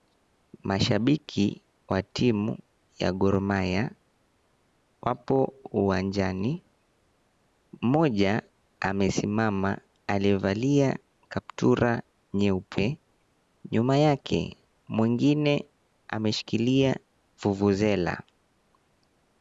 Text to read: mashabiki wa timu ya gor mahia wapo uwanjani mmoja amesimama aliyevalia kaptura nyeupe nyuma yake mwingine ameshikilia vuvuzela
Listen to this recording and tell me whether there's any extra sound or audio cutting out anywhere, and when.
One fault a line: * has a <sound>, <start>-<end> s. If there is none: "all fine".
all fine